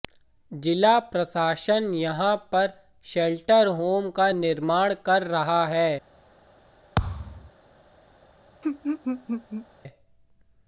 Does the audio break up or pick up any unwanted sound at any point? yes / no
yes